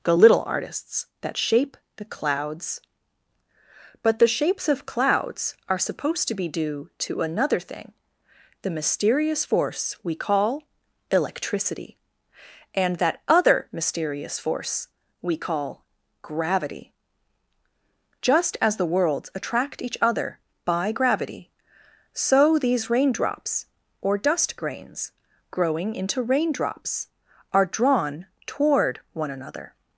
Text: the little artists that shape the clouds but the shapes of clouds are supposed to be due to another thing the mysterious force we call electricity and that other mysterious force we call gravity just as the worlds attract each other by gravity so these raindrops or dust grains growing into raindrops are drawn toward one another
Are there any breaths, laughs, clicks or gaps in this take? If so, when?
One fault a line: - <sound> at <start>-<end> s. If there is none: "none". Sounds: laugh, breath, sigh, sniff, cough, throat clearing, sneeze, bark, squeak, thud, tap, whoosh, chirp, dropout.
none